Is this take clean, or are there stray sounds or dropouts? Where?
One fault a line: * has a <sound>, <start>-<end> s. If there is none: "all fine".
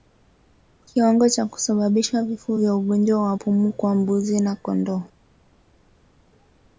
all fine